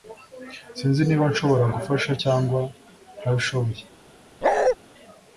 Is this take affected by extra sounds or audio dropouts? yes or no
yes